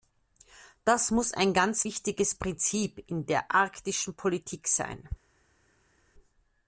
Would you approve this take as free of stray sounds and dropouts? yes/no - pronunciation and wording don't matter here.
yes